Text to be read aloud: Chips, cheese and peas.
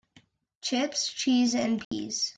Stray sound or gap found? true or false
true